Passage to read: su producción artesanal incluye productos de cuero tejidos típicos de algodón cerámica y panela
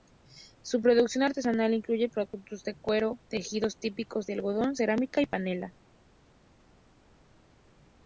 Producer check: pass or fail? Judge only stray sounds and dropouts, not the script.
pass